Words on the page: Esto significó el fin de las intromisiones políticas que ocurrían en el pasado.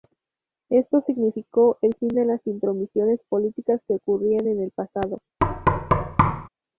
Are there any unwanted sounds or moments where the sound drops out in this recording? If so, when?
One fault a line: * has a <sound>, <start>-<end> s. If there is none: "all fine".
* has a thud, 5.4-6.5 s